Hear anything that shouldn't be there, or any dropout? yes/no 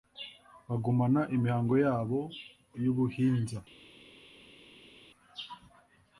no